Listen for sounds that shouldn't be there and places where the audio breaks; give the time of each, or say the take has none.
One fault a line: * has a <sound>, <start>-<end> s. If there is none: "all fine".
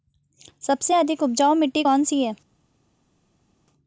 all fine